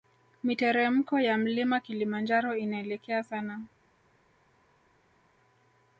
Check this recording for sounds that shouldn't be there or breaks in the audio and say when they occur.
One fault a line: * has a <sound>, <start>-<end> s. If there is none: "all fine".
all fine